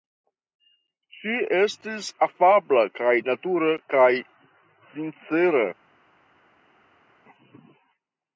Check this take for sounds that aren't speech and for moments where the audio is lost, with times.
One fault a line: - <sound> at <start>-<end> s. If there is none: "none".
none